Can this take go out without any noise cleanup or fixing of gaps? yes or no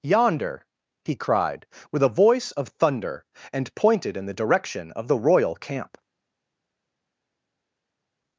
yes